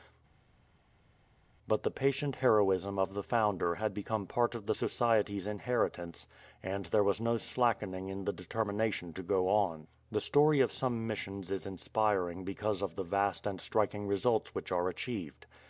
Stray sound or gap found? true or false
false